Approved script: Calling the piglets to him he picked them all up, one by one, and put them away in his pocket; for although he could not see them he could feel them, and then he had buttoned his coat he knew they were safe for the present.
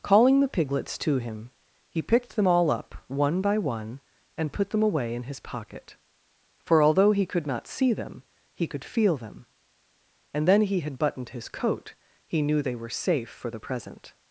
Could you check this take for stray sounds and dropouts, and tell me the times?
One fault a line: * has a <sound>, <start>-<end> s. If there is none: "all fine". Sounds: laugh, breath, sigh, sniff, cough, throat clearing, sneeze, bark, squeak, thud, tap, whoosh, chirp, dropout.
all fine